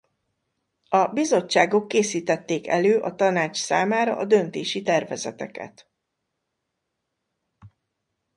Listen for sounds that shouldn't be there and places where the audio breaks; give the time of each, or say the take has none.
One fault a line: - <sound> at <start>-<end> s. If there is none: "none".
none